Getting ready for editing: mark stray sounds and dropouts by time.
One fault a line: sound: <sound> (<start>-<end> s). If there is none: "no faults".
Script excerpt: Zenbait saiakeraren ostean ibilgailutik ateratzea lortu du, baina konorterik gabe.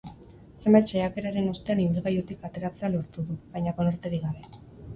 no faults